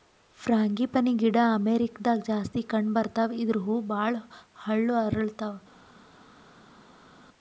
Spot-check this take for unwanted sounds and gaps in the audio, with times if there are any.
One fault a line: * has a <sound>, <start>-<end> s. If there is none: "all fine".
all fine